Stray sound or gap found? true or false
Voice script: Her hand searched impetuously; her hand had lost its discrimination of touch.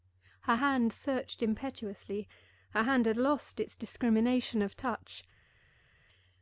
false